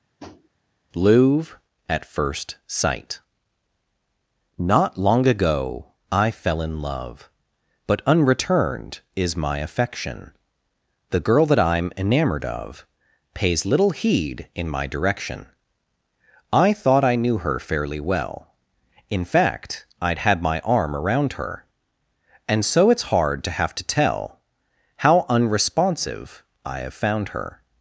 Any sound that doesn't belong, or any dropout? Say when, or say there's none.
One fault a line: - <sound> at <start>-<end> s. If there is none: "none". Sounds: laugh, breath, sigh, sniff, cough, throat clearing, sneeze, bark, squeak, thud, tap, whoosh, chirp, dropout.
- tap at 0.2-0.5 s